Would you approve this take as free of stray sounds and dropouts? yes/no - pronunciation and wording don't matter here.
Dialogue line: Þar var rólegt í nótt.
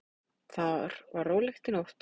yes